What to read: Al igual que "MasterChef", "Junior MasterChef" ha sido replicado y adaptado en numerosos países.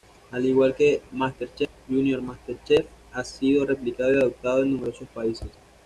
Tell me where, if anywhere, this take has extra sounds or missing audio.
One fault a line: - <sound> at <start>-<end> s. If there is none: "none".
none